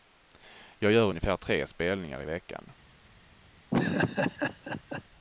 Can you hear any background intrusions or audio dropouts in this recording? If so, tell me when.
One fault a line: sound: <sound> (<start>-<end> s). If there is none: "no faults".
sound: laugh (3.7-5.0 s)